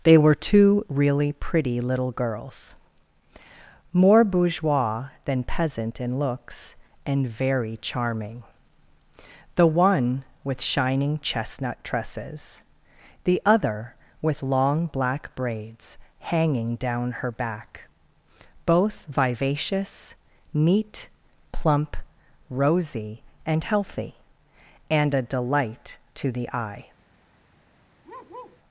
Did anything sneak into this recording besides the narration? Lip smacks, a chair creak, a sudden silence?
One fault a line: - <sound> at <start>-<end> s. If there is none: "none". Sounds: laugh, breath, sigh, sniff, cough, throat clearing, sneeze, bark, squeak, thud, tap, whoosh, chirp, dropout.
- bark at 28.0-28.6 s